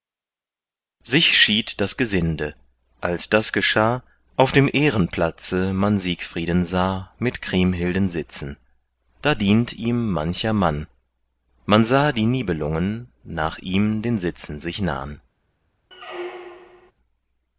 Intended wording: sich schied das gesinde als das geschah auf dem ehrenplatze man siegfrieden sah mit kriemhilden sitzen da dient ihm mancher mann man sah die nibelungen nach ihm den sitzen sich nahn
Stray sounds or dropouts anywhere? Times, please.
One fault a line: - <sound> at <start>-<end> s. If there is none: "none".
- squeak at 15.9-16.9 s